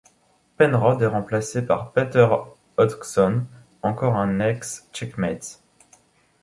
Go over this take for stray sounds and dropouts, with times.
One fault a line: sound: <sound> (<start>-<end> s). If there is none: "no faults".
no faults